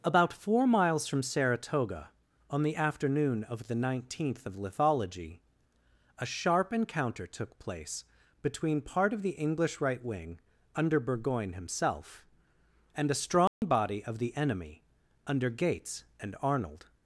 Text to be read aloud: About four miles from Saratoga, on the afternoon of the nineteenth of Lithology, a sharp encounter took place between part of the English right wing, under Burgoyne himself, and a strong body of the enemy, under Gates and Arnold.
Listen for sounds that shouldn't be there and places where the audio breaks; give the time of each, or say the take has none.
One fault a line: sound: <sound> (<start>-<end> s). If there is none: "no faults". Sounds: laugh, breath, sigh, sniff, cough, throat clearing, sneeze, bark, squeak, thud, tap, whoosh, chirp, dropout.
sound: dropout (13.5-13.6 s)